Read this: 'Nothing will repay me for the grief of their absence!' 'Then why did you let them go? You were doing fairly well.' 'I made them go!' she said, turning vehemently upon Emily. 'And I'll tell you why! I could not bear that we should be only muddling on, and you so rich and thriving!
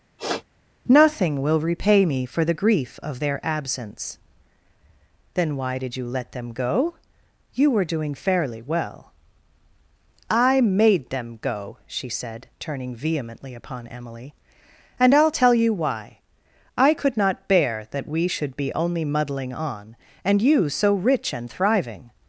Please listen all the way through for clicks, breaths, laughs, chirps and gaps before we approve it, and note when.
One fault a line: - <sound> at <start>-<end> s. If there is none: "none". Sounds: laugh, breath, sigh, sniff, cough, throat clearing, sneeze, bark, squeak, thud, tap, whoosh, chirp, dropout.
- sniff at 0.2-0.4 s